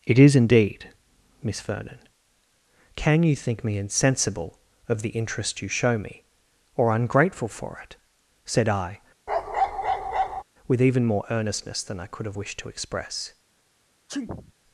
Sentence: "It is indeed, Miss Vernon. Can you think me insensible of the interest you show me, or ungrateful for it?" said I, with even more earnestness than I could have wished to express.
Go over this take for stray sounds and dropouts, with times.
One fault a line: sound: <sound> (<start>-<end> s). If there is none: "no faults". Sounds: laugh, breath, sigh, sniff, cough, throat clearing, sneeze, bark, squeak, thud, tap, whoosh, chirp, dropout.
sound: bark (9.3-10.4 s)
sound: sneeze (14.1-14.5 s)